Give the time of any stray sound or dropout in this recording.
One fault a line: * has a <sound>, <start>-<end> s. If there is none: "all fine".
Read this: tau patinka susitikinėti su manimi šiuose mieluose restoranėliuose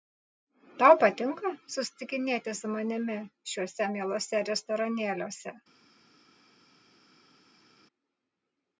all fine